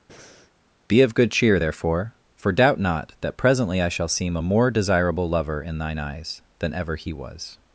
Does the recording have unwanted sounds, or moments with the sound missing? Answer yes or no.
yes